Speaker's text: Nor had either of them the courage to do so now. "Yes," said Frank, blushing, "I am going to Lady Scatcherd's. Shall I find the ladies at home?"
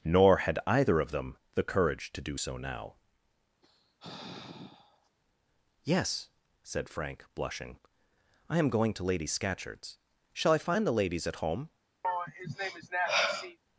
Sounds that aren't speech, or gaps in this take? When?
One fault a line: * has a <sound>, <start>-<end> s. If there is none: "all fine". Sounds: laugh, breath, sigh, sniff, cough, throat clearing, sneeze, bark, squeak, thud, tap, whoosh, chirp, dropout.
* has a sigh, 3.6-5.1 s
* has a sigh, 12.0-13.6 s